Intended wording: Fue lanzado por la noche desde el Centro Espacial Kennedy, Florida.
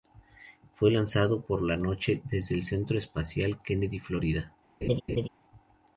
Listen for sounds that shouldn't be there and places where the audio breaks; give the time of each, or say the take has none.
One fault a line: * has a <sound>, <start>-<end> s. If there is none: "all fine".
* has a laugh, 4.8-5.3 s